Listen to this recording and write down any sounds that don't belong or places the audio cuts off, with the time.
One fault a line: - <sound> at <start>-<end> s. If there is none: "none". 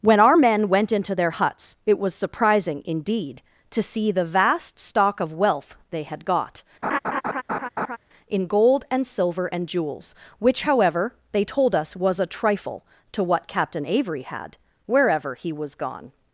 - laugh at 6.8-8.0 s